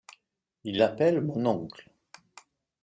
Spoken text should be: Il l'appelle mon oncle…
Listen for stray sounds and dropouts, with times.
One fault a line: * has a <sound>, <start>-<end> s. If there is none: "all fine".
all fine